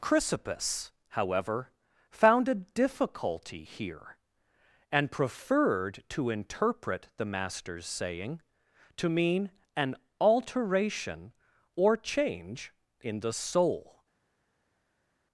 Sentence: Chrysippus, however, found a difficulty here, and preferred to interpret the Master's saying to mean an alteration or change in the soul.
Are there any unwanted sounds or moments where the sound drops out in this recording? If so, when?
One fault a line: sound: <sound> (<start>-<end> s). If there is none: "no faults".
no faults